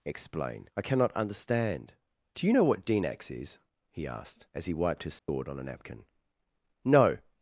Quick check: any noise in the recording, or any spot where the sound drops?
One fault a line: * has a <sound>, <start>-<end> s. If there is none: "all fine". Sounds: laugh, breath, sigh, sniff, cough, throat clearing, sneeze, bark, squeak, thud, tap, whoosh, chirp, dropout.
* has a dropout, 5.2-5.3 s